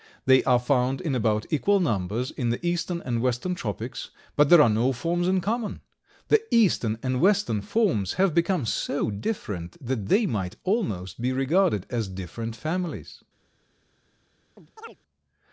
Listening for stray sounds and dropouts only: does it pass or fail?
fail